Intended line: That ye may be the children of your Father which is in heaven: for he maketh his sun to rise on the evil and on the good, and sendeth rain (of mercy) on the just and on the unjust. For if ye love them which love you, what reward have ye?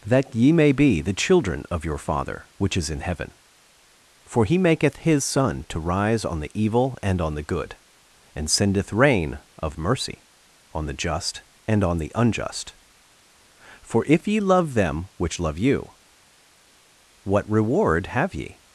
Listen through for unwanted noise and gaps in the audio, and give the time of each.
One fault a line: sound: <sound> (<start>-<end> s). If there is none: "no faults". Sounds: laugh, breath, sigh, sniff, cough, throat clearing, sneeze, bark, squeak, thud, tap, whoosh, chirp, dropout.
no faults